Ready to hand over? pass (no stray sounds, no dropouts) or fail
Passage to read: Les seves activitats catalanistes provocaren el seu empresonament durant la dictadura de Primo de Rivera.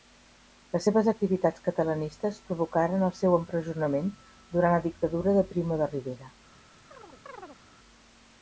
fail